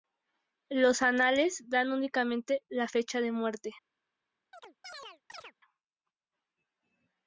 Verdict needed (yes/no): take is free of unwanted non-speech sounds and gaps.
no